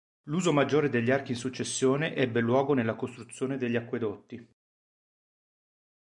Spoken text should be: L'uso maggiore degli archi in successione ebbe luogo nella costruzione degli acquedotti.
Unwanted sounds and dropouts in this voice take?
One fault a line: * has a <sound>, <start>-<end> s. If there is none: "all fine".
all fine